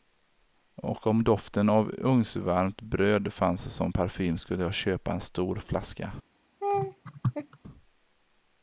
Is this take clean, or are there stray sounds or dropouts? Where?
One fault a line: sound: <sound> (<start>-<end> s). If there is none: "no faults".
sound: laugh (6.6-7.6 s)